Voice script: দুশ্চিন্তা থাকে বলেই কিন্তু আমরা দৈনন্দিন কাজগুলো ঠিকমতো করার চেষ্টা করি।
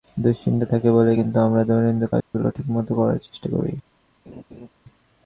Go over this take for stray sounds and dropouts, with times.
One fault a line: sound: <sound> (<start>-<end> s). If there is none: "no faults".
sound: dropout (2.2-2.3 s)
sound: laugh (4.3-4.7 s)